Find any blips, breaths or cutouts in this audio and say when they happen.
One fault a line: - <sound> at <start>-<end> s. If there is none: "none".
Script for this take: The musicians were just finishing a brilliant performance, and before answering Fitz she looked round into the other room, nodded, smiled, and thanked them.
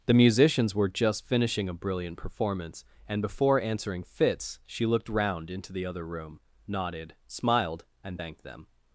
none